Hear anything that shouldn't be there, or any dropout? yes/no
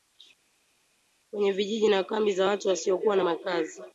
no